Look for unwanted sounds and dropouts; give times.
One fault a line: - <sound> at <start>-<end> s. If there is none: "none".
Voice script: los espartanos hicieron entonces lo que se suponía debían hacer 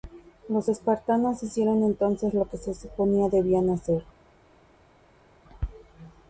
none